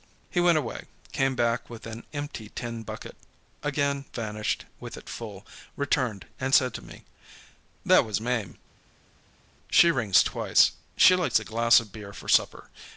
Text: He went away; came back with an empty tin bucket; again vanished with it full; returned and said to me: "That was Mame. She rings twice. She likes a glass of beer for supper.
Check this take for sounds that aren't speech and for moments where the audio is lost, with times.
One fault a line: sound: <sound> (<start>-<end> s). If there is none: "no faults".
no faults